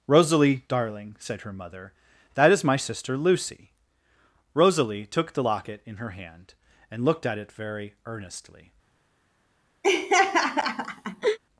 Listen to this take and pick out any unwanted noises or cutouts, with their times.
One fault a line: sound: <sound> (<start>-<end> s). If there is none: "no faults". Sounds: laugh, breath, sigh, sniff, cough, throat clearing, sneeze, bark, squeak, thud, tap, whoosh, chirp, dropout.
sound: laugh (9.8-11.4 s)